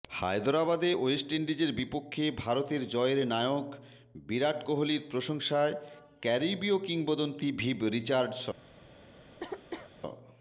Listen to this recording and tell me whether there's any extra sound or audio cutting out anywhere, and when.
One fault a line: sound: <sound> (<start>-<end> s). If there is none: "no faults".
sound: cough (9.4-9.9 s)